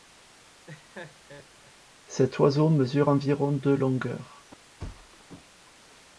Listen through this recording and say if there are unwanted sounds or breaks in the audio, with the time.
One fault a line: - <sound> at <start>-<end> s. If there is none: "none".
- laugh at 0.7-1.7 s
- thud at 4.8-5.3 s